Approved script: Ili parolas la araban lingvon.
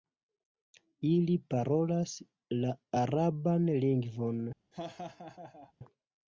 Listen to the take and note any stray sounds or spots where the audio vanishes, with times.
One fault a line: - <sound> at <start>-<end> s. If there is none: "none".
- laugh at 4.7-5.7 s